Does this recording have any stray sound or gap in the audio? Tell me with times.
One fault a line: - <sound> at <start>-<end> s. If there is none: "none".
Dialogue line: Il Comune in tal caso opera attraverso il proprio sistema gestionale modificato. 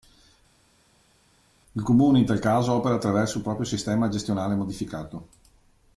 none